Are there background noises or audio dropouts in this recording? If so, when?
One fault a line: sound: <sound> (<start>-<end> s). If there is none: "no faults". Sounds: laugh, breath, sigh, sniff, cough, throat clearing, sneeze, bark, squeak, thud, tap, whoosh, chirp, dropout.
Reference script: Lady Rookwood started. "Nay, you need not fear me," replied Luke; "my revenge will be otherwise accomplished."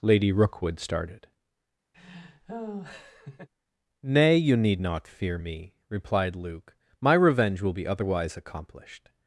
sound: laugh (1.9-3.5 s)